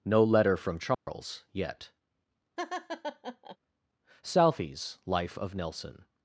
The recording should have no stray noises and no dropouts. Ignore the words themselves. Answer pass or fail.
fail